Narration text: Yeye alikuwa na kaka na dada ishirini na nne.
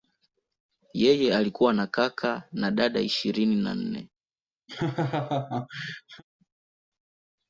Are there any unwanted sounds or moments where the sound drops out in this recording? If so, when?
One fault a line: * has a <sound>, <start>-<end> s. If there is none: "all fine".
* has a laugh, 4.7-6.2 s